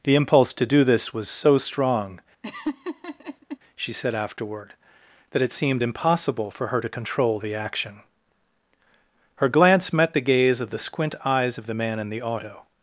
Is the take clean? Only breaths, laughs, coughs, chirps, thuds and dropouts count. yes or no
no